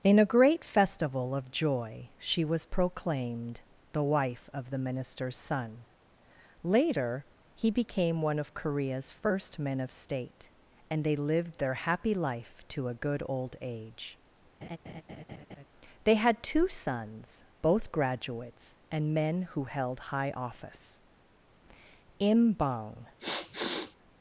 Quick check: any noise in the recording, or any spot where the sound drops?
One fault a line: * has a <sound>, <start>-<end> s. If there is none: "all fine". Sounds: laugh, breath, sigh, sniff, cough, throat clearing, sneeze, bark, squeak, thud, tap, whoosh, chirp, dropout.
* has a laugh, 14.6-15.6 s
* has a sniff, 23.2-24.0 s